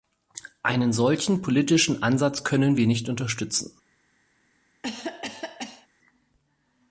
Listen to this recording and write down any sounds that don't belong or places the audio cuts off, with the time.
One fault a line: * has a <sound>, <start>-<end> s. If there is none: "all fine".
* has a cough, 4.8-5.9 s